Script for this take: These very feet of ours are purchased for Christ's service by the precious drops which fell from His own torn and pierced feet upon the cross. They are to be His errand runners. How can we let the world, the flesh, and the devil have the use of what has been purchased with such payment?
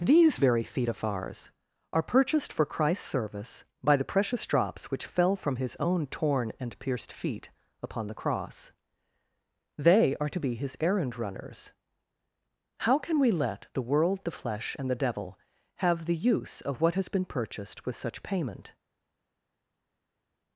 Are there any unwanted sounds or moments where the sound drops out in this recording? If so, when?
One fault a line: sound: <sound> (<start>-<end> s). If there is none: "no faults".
no faults